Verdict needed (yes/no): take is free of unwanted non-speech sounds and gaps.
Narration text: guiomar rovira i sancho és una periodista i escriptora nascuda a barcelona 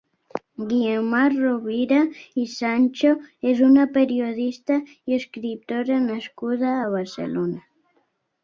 yes